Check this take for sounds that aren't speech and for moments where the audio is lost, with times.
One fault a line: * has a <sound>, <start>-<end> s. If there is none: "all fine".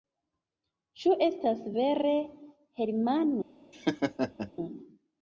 * has a laugh, 3.7-4.5 s